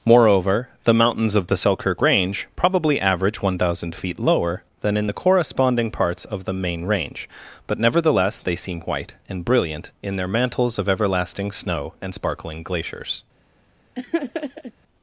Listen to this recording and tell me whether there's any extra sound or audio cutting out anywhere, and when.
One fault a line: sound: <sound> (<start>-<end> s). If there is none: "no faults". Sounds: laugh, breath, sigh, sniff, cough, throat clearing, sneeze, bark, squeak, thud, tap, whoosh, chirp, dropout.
sound: laugh (13.9-14.7 s)